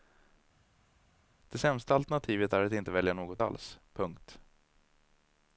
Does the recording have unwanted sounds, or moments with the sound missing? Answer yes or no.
no